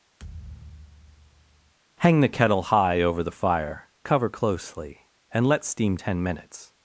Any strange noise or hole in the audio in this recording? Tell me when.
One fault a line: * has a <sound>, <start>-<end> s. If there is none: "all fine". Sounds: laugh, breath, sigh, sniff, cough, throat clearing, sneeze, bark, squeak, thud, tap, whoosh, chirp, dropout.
* has a thud, 0.2-1.7 s